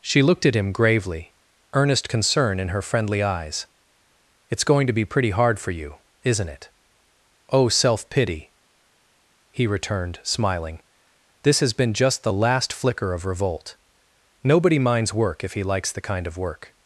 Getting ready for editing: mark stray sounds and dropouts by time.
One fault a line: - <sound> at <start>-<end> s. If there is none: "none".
none